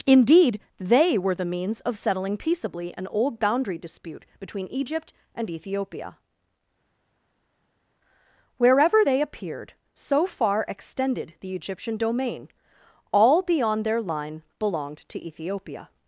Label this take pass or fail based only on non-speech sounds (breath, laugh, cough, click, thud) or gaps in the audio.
pass